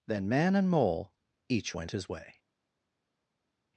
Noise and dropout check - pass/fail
pass